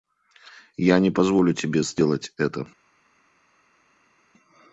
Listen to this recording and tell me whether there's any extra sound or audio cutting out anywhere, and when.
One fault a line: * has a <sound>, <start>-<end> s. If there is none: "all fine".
all fine